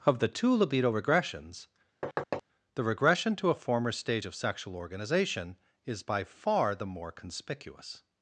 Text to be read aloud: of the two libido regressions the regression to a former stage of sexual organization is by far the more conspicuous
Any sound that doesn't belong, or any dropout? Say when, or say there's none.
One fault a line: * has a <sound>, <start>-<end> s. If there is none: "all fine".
* has a thud, 2.0-2.4 s